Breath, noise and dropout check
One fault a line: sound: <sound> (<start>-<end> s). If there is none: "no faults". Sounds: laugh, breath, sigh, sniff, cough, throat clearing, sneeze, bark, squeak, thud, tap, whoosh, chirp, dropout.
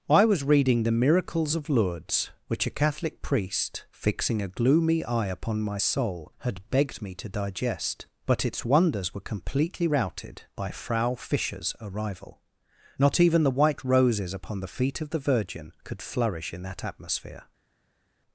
no faults